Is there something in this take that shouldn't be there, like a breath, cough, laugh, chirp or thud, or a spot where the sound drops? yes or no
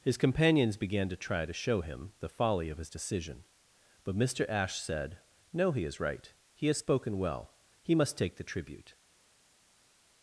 no